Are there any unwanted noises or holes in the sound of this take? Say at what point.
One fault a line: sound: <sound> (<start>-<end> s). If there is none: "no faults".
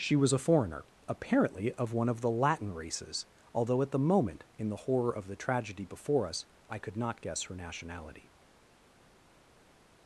no faults